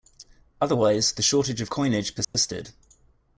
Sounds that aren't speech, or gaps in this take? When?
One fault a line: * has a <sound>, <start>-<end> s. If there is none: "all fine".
* has a dropout, 2.2-2.3 s